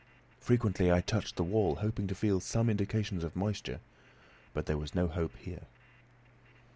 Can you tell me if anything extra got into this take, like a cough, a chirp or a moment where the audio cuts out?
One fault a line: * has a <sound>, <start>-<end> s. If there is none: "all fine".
all fine